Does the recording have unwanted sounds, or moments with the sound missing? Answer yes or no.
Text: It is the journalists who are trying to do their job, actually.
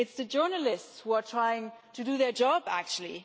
no